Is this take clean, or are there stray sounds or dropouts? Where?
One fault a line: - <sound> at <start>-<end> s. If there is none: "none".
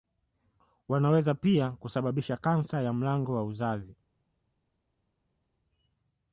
none